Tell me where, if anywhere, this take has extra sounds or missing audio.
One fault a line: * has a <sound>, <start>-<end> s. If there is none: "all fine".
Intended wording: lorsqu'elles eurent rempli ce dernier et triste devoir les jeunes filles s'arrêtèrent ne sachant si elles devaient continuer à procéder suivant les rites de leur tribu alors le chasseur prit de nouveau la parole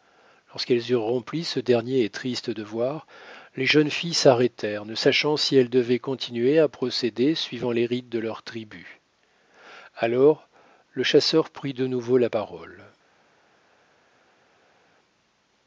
all fine